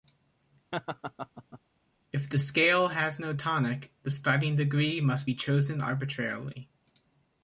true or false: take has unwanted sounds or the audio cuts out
true